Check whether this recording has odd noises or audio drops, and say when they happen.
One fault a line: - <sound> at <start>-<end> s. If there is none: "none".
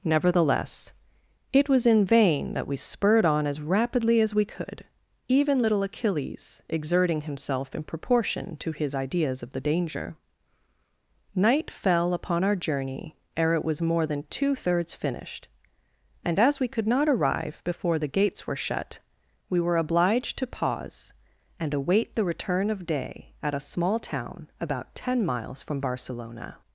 none